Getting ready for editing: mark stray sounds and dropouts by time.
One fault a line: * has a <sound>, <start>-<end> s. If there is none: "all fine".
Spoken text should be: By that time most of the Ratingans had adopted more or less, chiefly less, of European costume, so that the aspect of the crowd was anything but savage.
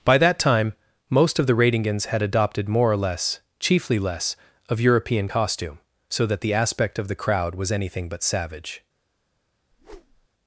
* has a whoosh, 9.7-10.3 s